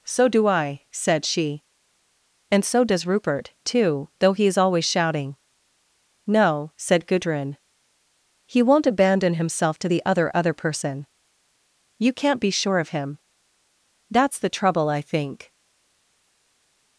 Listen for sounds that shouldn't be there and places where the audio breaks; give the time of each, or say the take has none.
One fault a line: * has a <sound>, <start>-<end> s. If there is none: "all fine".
all fine